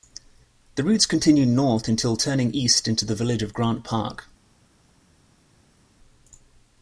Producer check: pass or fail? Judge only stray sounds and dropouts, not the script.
pass